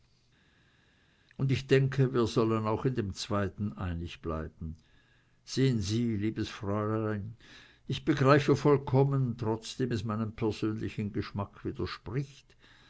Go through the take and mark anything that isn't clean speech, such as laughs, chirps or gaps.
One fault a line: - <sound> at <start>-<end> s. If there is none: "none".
none